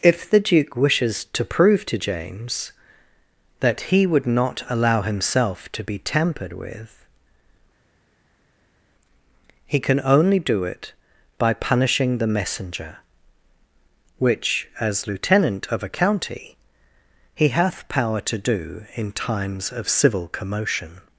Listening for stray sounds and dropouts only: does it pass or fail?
pass